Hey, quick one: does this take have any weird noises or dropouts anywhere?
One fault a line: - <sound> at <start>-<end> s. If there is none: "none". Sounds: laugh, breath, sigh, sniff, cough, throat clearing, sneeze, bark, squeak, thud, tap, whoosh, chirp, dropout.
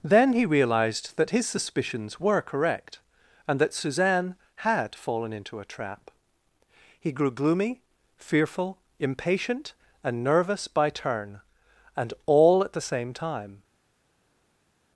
none